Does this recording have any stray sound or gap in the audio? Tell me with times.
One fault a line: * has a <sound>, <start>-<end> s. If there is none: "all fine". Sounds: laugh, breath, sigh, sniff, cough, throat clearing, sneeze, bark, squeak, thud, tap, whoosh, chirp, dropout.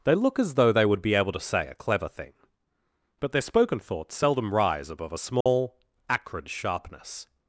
* has a dropout, 5.4-5.5 s